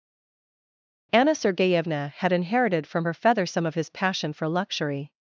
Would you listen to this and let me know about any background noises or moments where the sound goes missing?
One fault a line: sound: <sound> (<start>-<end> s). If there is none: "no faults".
no faults